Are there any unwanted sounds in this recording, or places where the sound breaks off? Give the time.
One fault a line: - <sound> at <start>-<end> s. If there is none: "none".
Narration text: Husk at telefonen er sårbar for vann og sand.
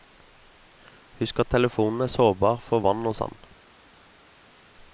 none